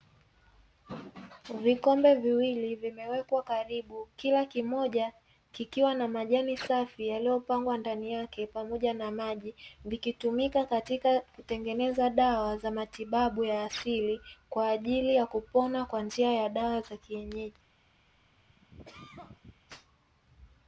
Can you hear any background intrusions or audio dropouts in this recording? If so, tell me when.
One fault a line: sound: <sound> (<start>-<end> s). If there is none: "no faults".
sound: cough (18.3-19.6 s)